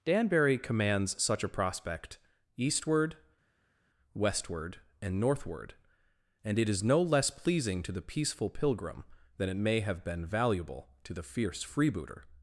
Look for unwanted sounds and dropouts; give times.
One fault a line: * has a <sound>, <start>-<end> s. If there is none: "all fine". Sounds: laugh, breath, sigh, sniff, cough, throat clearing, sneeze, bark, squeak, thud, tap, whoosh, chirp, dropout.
all fine